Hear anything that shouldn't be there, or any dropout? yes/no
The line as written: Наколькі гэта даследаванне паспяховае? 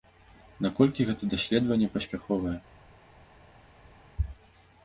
no